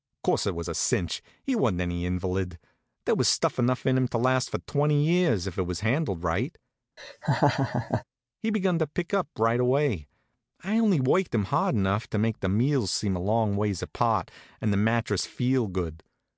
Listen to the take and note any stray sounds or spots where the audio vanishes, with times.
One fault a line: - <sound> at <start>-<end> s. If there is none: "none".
- laugh at 7.0-8.0 s